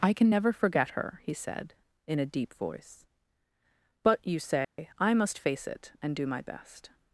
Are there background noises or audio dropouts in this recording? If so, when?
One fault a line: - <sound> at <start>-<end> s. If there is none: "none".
- dropout at 4.6-4.8 s